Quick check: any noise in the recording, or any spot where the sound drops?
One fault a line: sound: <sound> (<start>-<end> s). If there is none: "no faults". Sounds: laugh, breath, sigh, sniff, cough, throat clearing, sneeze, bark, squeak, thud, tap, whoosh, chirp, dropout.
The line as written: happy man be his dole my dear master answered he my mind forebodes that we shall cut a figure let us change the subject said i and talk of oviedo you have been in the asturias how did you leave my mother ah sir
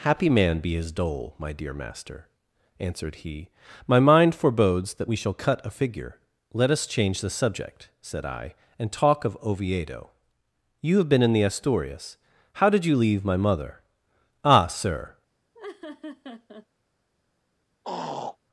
sound: laugh (15.5-16.7 s)
sound: throat clearing (17.8-18.4 s)